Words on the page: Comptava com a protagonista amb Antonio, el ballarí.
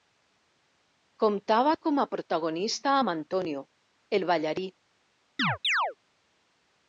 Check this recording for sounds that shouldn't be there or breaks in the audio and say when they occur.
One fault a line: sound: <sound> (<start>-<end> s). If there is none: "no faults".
sound: chirp (5.4-6.0 s)